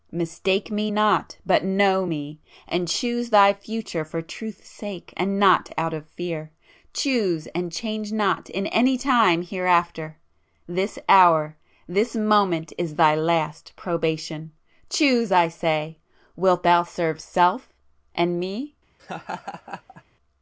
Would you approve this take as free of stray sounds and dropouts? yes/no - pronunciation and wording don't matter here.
no